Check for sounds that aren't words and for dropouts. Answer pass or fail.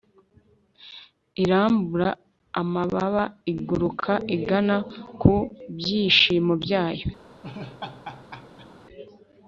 fail